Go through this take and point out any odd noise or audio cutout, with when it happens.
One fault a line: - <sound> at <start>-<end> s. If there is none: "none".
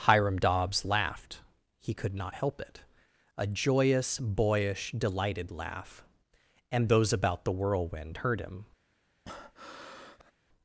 - breath at 9.3-10.3 s